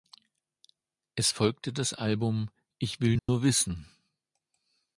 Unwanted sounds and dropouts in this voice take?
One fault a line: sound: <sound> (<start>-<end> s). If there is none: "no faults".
sound: dropout (3.2-3.3 s)